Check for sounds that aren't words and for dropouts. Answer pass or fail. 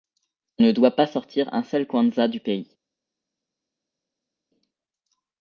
pass